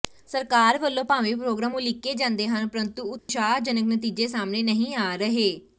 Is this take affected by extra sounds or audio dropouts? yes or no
yes